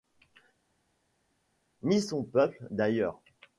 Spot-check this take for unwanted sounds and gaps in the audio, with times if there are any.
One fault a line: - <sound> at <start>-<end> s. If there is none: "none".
none